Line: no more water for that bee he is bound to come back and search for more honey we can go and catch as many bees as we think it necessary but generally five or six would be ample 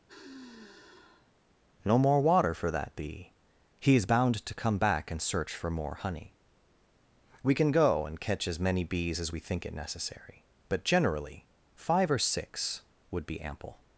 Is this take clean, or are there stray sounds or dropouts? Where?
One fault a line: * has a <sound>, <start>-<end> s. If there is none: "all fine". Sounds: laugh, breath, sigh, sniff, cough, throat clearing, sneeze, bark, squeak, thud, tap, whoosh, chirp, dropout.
* has a sigh, 0.1-1.3 s